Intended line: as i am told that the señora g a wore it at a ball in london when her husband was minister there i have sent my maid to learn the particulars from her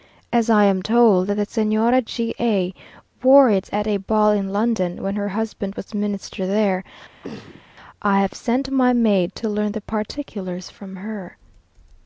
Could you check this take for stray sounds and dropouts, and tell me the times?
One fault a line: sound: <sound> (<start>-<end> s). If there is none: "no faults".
sound: throat clearing (7.2-7.6 s)